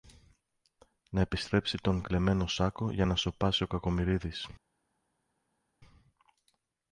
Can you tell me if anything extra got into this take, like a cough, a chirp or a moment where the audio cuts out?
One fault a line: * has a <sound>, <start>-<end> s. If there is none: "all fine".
all fine